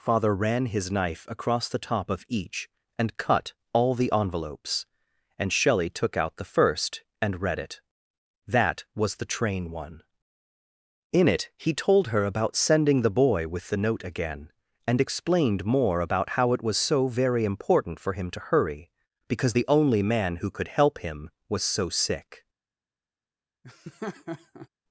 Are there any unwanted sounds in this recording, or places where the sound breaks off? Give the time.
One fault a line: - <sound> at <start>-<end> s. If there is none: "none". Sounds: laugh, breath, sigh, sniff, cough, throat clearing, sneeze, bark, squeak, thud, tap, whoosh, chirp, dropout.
- laugh at 23.6-24.7 s